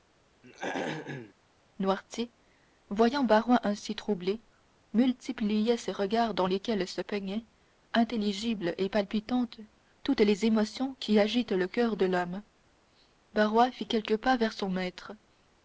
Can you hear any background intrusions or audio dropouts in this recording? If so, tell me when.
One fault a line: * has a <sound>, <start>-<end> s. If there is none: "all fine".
* has a throat clearing, 0.4-1.3 s